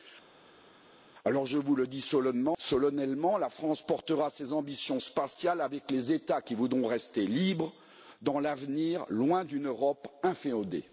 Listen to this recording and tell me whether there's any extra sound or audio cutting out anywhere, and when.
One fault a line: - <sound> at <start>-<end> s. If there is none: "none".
none